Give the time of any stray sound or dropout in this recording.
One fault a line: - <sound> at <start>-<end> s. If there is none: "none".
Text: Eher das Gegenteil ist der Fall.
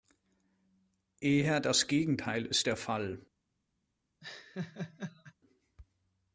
- laugh at 4.2-5.3 s